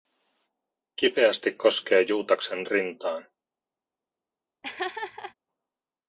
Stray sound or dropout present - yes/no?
yes